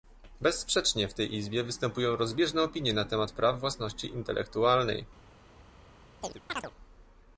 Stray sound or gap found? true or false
true